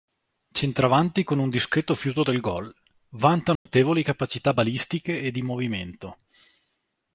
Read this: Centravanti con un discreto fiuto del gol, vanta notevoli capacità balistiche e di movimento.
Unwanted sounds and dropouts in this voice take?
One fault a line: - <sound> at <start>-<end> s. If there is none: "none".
- dropout at 3.6-3.7 s